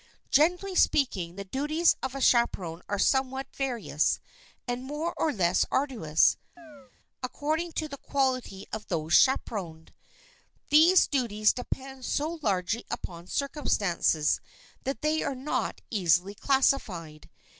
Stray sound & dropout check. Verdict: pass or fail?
fail